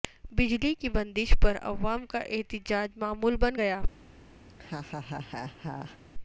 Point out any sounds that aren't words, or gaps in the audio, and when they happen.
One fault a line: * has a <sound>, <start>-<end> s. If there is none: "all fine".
* has a laugh, 4.5-6.0 s